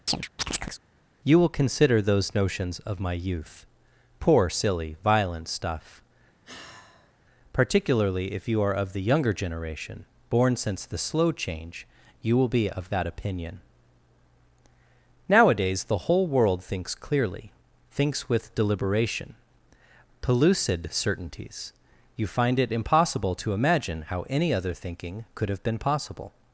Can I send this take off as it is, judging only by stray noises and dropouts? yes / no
no